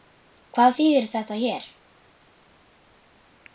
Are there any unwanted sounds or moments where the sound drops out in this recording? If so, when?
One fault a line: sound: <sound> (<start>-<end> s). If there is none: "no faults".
no faults